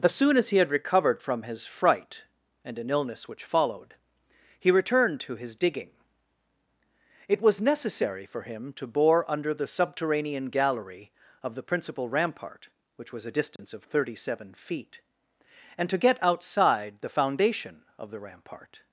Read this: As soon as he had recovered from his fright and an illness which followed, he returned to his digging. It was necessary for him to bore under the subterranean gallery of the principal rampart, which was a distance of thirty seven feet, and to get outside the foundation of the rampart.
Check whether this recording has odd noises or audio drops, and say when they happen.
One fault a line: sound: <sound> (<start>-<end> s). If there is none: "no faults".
sound: dropout (13.6-13.6 s)